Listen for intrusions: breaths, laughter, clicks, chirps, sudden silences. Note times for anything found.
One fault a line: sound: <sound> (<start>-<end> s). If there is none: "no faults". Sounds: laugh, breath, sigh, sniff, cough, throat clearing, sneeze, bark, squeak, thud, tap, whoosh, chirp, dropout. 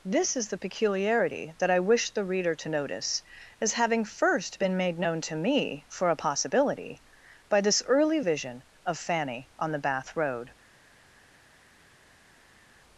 no faults